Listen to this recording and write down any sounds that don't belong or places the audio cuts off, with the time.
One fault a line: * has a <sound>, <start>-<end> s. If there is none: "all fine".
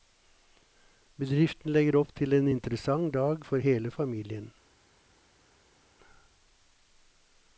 all fine